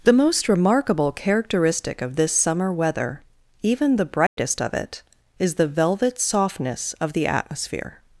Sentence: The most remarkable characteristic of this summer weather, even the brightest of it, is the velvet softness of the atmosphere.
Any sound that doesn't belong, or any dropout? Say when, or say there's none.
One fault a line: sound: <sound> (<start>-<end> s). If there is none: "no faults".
sound: dropout (4.3-4.4 s)